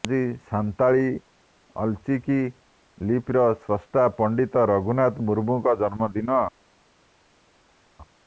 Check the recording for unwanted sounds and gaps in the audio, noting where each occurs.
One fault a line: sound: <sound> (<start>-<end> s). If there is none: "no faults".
no faults